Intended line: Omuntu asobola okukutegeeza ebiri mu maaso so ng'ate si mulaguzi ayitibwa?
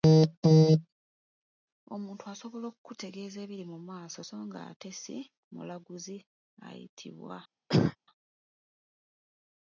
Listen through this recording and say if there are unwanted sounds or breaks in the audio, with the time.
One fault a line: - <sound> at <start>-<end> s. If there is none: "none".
- cough at 7.7-8.0 s